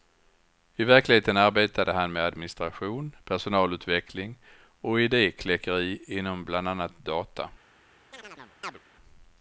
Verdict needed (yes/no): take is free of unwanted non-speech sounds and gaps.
no